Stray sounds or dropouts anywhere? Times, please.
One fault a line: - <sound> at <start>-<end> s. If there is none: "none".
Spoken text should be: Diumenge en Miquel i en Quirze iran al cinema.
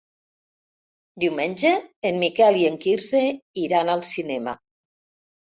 none